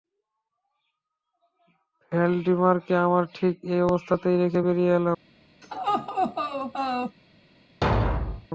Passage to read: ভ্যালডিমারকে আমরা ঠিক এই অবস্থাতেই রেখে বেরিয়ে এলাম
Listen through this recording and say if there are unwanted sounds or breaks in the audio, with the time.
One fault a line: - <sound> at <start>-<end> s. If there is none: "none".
- laugh at 5.6-7.2 s
- thud at 7.8-8.5 s